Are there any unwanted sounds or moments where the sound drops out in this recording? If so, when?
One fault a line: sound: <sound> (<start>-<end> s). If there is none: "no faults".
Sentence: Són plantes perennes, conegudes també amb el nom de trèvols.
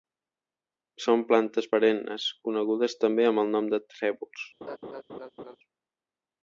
sound: laugh (4.6-5.6 s)